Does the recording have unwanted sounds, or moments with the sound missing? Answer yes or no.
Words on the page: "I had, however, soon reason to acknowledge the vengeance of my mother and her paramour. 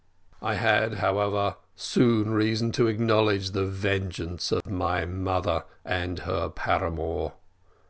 yes